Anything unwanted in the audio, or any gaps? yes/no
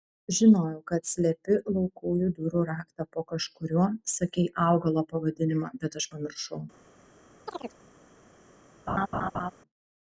yes